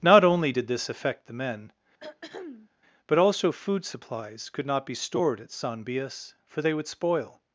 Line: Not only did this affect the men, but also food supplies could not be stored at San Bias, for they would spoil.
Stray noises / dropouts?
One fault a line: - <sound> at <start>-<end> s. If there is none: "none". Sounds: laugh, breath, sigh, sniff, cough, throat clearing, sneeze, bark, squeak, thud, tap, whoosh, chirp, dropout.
- throat clearing at 2.0-2.7 s